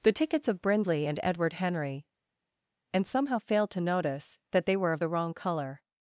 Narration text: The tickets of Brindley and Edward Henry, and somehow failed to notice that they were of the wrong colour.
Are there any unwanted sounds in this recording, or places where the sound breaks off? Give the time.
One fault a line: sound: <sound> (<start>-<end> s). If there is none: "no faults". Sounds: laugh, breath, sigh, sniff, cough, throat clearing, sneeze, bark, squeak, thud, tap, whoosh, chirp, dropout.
no faults